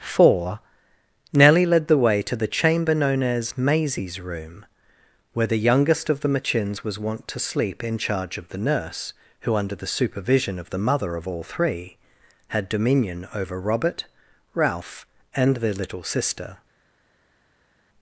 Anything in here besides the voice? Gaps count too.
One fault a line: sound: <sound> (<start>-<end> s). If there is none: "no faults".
no faults